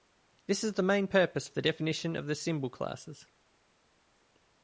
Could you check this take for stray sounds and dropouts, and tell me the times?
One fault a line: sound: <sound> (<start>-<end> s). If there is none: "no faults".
no faults